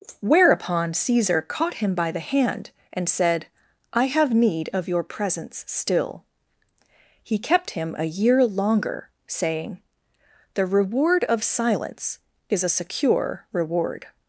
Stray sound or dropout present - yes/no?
no